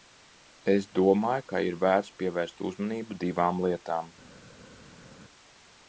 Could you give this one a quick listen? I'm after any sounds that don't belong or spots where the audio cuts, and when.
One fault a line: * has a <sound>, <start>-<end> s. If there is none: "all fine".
all fine